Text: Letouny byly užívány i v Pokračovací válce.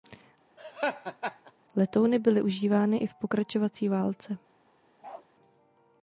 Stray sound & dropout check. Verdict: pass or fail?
fail